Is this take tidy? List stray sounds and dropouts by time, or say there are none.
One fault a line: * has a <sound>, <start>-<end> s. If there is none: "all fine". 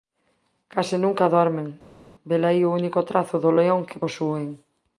all fine